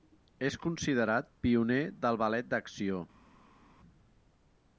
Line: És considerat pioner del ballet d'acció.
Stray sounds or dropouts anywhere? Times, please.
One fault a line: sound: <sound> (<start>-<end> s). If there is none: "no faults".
no faults